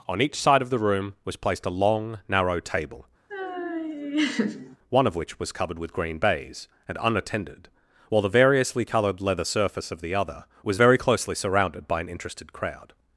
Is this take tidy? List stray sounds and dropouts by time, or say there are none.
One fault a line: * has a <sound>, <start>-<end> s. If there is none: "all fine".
* has a laugh, 3.3-4.8 s